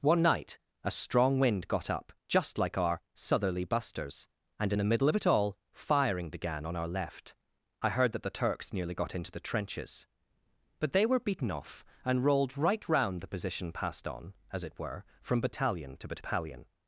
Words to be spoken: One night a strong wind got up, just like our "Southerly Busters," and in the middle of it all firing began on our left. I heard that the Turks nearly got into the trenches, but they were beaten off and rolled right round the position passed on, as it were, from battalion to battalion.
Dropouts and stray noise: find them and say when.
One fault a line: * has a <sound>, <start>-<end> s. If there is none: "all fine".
all fine